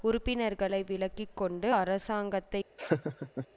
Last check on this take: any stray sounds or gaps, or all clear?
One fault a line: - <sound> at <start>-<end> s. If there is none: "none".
- laugh at 2.8-3.5 s